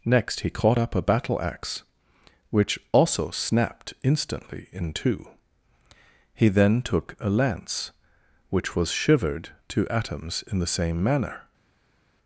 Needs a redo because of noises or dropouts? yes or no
no